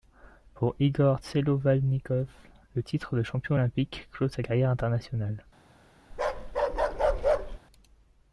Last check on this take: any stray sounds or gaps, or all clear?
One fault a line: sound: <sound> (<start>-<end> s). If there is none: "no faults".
sound: bark (6.1-7.6 s)